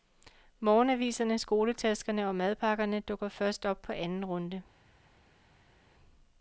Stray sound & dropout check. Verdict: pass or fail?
pass